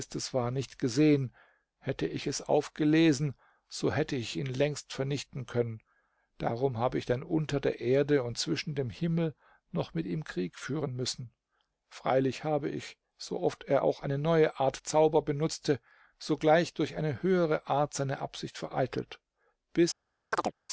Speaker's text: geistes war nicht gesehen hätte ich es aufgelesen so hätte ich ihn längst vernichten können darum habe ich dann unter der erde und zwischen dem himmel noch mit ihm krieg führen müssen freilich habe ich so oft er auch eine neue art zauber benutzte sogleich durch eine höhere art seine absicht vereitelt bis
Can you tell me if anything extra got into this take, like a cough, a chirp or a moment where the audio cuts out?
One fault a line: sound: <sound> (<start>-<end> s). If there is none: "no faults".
sound: chirp (20.3-20.5 s)